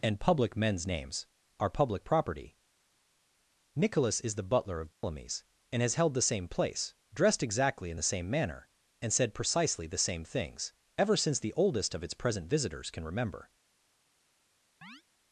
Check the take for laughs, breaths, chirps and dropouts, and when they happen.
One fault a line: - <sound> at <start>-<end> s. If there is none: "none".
- dropout at 4.9-5.0 s
- chirp at 14.8-15.0 s